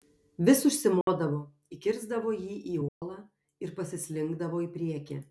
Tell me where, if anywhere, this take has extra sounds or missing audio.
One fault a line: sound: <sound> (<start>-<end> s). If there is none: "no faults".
sound: dropout (1.0-1.1 s)
sound: dropout (2.9-3.0 s)